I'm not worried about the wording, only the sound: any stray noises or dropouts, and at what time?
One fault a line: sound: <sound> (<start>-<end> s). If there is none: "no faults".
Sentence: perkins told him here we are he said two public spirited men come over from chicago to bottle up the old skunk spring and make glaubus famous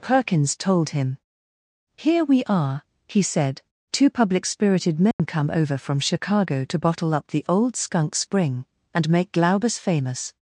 sound: dropout (5.1-5.2 s)